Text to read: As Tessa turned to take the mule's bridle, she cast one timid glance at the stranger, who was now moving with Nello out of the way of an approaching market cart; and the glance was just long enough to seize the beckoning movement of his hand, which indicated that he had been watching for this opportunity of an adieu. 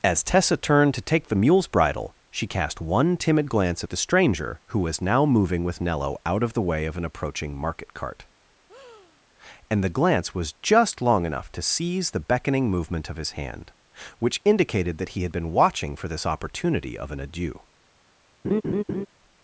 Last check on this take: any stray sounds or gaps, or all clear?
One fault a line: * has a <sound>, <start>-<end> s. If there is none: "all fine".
* has a breath, 8.7-9.2 s
* has a laugh, 18.4-19.1 s